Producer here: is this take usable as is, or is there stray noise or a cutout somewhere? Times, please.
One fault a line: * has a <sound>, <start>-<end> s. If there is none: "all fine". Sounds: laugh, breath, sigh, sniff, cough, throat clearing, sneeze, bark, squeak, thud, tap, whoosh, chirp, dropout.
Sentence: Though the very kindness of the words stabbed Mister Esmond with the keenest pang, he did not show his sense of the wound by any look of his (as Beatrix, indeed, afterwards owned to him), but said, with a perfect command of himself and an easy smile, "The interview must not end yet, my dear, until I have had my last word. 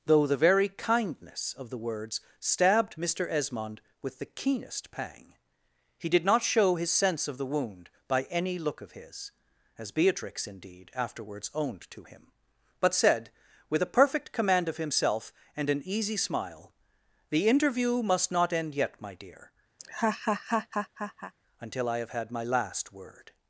* has a laugh, 19.8-21.3 s